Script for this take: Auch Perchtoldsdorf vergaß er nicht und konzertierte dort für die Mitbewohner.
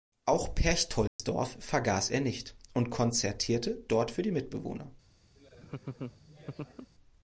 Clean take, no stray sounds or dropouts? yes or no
no